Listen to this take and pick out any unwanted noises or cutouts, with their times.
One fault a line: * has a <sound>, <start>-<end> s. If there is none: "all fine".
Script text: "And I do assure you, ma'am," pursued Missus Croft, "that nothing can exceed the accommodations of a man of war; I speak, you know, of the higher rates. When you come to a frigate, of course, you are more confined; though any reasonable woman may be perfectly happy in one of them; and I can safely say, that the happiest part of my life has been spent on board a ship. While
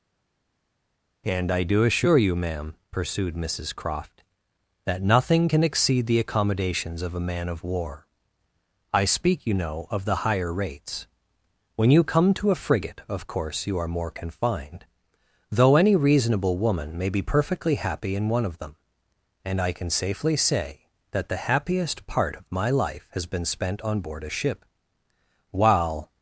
all fine